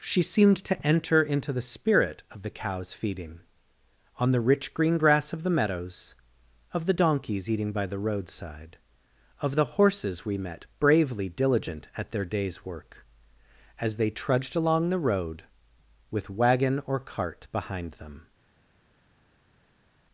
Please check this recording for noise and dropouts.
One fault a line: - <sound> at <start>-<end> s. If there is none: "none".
none